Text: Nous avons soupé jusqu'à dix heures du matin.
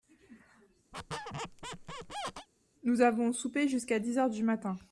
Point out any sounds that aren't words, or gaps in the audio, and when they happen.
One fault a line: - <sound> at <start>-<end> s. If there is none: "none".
- squeak at 0.9-2.5 s